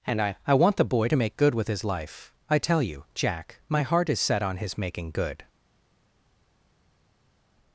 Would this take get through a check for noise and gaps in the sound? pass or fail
pass